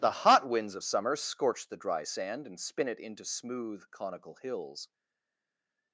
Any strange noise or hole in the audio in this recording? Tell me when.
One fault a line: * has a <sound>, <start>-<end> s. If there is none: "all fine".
all fine